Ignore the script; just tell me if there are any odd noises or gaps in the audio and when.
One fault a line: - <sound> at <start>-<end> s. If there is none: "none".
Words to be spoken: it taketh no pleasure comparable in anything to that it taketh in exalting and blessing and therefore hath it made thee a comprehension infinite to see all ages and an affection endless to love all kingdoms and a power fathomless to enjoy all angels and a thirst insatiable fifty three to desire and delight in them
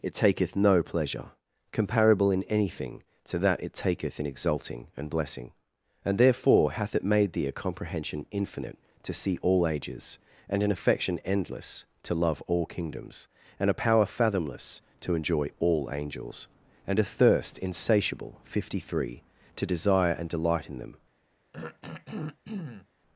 - throat clearing at 21.5-22.9 s